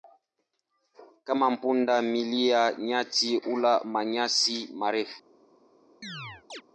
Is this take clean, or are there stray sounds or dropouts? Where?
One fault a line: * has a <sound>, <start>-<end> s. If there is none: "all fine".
* has a chirp, 6.0-6.6 s